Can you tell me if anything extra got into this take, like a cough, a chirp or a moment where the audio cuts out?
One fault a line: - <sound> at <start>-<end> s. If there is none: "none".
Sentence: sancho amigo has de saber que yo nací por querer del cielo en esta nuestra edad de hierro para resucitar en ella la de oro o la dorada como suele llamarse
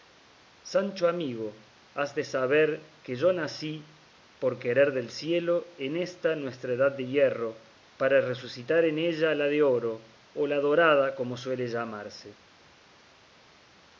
none